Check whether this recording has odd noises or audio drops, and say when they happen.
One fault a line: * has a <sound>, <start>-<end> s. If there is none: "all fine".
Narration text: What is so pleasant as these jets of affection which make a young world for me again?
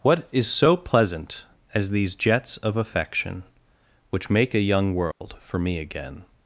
* has a dropout, 5.1-5.2 s